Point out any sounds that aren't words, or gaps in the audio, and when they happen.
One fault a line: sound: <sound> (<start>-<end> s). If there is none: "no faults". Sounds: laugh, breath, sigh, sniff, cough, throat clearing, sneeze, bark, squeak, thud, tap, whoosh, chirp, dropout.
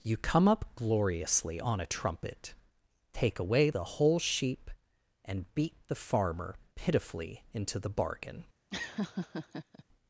sound: laugh (8.7-9.8 s)